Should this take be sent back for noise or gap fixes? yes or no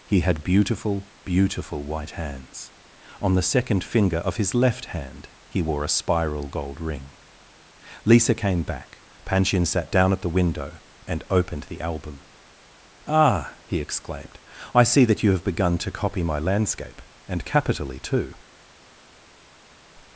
no